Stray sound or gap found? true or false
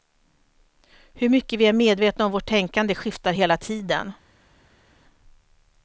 false